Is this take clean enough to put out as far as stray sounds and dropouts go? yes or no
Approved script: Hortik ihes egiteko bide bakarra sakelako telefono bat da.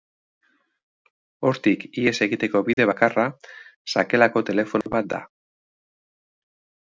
no